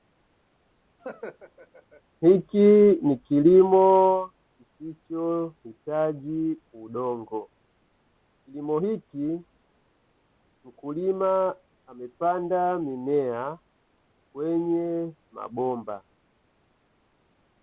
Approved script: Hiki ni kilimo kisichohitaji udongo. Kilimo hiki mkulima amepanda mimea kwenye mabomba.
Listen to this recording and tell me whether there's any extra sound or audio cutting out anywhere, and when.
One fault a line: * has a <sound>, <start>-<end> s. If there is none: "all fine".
* has a laugh, 1.0-2.0 s